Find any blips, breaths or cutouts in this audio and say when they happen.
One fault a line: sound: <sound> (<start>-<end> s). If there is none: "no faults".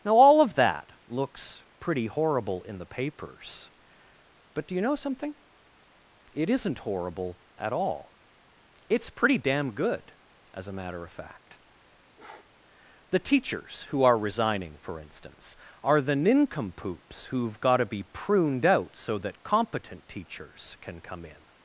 sound: sniff (12.2-12.5 s)